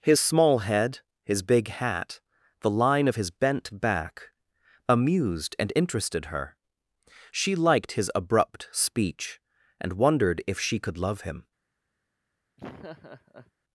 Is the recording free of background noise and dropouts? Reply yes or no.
no